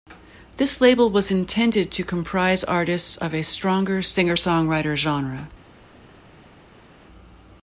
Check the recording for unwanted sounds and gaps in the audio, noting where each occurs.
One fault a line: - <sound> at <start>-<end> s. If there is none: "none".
none